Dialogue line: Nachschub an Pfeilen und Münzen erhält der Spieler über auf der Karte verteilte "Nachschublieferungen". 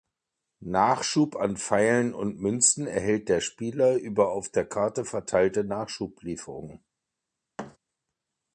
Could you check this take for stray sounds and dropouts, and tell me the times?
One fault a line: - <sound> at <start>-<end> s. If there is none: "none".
- thud at 7.6-7.8 s